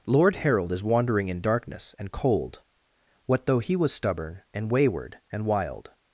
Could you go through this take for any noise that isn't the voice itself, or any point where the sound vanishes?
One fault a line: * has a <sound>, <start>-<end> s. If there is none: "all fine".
all fine